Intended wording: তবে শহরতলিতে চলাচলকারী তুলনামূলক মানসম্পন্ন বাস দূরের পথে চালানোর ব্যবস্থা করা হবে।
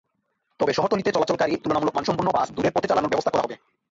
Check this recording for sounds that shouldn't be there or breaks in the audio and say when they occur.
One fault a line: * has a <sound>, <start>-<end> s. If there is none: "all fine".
all fine